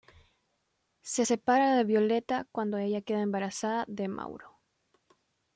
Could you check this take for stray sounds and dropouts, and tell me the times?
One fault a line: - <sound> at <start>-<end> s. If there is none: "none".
none